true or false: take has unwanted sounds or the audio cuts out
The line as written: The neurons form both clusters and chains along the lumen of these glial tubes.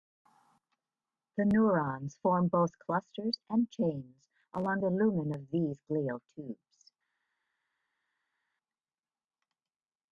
false